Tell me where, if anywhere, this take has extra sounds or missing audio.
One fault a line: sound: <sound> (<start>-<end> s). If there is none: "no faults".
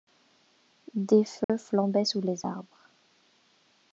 sound: dropout (1.4-1.5 s)